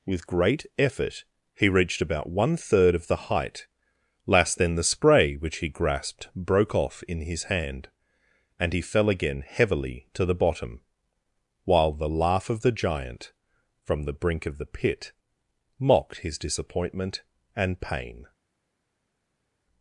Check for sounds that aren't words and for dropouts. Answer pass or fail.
pass